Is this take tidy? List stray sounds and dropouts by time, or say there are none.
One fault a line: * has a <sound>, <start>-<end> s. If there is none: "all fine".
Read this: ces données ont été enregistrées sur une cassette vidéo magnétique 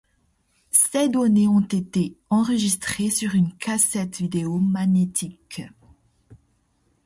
all fine